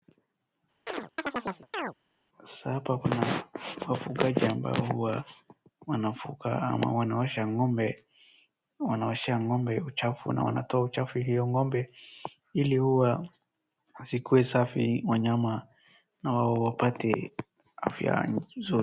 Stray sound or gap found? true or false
true